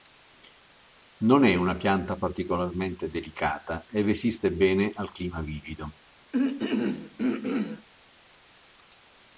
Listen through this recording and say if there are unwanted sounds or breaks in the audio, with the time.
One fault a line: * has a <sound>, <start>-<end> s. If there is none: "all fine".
* has a throat clearing, 6.3-7.9 s